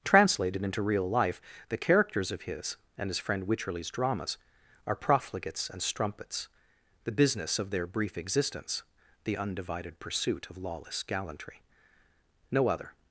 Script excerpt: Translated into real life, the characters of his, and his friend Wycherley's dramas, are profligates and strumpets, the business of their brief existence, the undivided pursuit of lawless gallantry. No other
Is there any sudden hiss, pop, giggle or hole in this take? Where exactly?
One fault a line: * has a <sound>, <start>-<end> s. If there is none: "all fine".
all fine